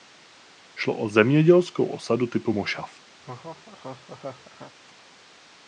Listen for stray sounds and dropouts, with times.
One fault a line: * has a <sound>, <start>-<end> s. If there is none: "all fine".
* has a laugh, 3.2-4.7 s